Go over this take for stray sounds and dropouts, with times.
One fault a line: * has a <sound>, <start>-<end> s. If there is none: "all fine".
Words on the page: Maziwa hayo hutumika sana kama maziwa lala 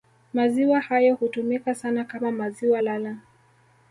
all fine